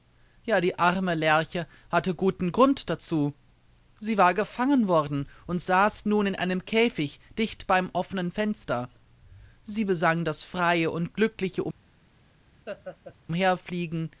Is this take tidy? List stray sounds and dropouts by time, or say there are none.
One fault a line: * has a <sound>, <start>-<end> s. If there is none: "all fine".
* has a laugh, 12.7-13.2 s